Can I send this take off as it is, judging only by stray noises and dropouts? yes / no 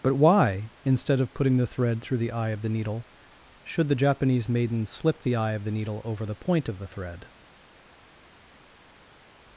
yes